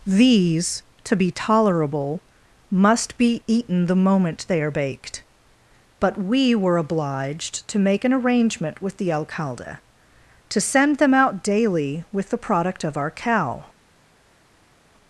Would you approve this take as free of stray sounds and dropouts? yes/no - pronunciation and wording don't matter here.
yes